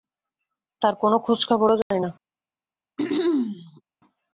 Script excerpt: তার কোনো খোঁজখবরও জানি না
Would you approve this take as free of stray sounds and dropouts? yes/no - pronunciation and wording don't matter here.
no